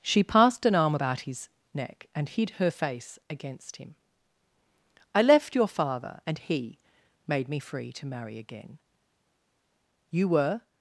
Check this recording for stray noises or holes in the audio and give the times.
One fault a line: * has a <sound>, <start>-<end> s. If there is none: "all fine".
all fine